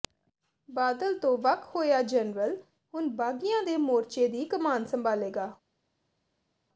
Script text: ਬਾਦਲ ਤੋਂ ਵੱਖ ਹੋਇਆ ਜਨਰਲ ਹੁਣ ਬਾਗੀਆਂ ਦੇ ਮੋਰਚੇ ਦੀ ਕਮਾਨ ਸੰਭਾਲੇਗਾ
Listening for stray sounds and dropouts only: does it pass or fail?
pass